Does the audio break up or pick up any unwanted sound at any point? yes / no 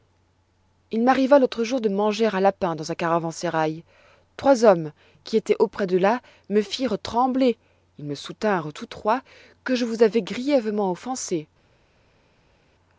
no